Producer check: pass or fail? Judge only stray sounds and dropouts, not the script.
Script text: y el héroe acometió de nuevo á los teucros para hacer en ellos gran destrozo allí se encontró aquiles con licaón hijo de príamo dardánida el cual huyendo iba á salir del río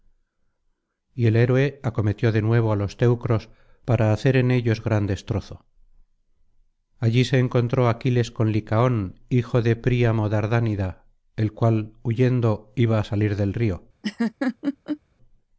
fail